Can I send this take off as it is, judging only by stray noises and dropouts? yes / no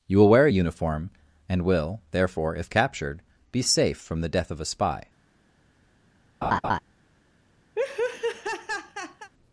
no